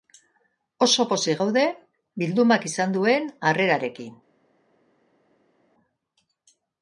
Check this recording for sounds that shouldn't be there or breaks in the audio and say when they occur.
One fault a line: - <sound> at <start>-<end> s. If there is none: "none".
none